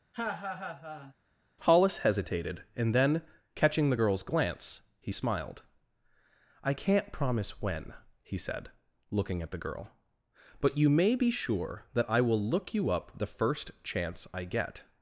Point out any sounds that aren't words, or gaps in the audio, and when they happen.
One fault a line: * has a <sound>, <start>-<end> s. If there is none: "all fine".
* has a laugh, 0.1-1.1 s